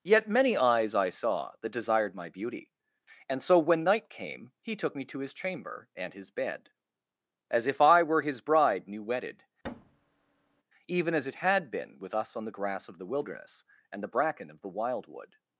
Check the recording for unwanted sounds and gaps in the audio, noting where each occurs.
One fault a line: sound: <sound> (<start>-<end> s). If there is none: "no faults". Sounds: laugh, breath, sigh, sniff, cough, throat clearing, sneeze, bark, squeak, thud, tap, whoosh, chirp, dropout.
sound: thud (9.6-10.6 s)